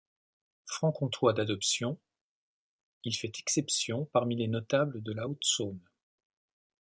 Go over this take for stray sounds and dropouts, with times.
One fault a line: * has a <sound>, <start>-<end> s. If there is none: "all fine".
all fine